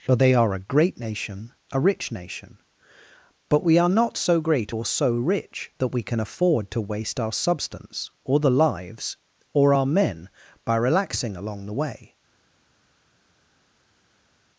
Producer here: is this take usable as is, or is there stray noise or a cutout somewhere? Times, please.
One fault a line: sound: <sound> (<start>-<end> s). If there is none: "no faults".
no faults